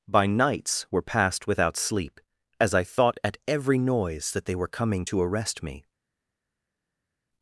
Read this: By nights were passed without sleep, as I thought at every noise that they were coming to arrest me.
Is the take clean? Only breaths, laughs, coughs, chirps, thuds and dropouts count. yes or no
yes